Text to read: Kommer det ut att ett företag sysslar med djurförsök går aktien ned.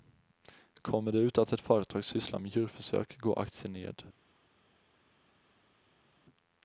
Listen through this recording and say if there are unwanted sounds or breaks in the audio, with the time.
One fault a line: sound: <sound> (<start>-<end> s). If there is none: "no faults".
no faults